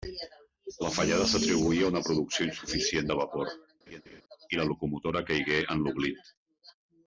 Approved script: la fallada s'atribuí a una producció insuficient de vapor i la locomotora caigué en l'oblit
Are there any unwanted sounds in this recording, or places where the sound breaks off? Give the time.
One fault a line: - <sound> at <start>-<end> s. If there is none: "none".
- laugh at 3.9-4.2 s